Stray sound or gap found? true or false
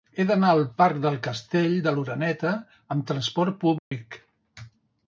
true